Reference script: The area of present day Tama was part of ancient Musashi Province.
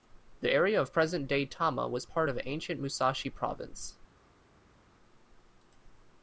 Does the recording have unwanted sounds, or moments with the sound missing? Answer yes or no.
no